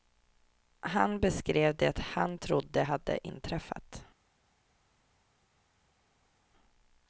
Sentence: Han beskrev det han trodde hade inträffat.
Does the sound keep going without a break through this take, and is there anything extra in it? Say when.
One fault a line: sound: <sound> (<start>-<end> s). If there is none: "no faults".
no faults